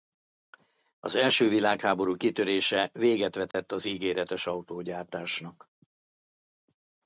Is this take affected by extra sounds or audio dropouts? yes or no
yes